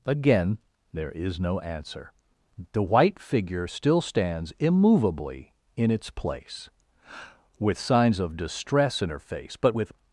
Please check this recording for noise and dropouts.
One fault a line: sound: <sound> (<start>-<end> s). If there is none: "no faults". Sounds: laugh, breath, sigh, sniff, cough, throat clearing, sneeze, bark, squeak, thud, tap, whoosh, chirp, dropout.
no faults